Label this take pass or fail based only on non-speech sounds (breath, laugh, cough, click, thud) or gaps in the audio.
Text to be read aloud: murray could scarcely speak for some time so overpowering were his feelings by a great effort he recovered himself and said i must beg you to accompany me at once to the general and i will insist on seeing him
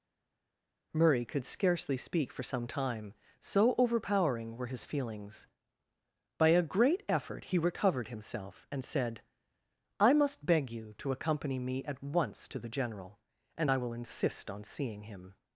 pass